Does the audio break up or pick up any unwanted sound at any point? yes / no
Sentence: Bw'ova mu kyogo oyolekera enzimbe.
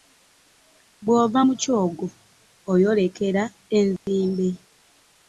yes